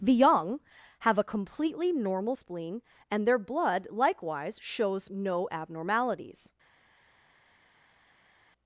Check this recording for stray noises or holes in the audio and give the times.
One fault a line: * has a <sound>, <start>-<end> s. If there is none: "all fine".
all fine